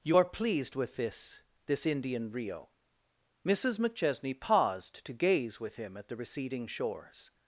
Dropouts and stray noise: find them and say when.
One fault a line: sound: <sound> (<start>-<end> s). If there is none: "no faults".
no faults